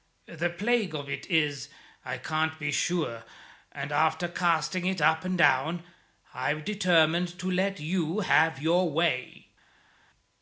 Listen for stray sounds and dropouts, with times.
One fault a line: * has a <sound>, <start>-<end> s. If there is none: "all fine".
all fine